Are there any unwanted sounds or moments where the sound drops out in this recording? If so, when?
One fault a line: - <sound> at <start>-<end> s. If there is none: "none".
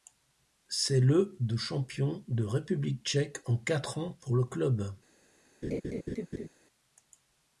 - laugh at 5.6-6.5 s